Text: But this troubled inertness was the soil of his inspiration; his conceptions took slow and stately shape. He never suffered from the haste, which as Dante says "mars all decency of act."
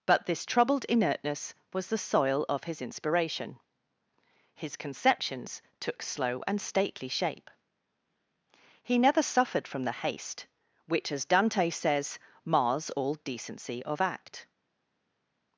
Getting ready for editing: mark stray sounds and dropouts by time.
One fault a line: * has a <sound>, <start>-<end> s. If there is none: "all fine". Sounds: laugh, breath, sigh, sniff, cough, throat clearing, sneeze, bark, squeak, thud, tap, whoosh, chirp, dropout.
all fine